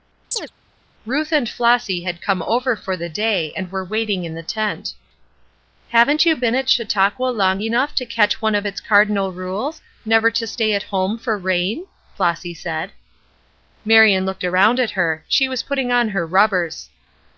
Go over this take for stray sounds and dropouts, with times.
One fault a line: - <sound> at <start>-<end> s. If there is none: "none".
- chirp at 0.3-0.5 s